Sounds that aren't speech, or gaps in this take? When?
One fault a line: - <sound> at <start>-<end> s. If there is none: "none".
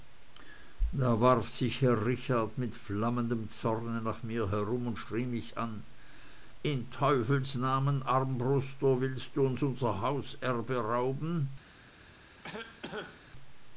- cough at 12.4-13.2 s